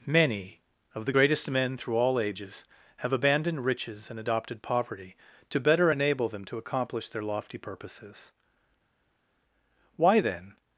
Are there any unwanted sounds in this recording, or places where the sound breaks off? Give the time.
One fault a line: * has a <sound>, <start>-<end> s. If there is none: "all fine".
all fine